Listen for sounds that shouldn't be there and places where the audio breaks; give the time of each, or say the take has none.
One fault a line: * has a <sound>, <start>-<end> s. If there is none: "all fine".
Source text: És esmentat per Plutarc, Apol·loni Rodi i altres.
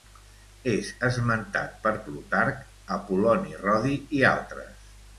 all fine